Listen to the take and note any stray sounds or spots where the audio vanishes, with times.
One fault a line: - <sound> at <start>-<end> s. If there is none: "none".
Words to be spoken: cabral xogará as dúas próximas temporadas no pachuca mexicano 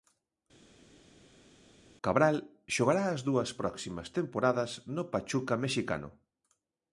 none